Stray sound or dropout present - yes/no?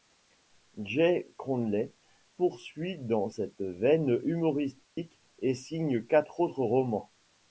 yes